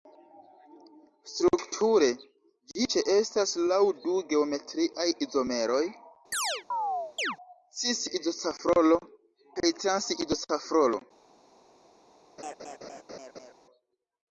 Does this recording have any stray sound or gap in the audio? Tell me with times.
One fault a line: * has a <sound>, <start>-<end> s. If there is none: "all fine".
* has a chirp, 6.3-7.4 s
* has a laugh, 12.4-13.5 s